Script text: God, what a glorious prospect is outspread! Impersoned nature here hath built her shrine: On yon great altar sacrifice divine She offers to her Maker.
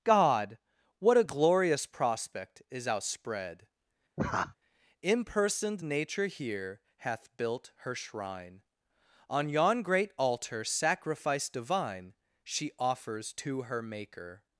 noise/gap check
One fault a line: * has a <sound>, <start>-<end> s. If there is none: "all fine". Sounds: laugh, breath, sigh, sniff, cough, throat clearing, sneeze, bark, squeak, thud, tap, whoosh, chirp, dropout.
* has a laugh, 4.2-4.6 s